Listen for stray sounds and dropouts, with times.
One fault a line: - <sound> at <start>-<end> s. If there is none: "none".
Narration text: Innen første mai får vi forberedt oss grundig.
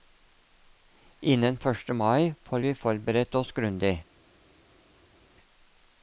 none